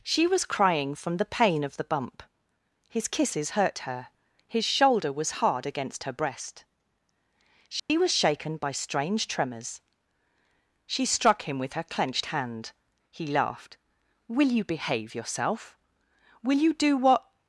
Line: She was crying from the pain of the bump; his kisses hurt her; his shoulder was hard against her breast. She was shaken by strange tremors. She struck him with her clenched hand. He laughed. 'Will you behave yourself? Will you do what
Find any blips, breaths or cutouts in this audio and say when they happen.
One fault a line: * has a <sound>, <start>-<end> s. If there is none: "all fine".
* has a dropout, 7.8-7.9 s